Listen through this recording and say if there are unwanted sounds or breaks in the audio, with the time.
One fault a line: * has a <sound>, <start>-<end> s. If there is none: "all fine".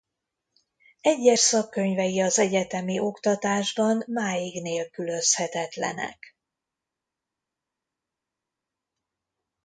all fine